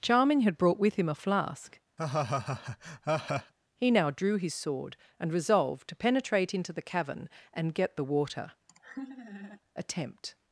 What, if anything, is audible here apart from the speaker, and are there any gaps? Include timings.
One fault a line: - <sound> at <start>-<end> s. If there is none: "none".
- laugh at 2.0-3.5 s
- laugh at 8.7-9.6 s